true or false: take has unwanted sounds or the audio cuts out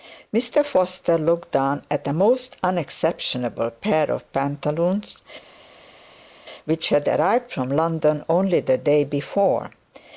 false